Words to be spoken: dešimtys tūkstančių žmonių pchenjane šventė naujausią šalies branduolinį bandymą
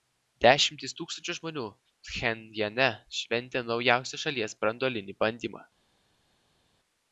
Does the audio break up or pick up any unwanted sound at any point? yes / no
no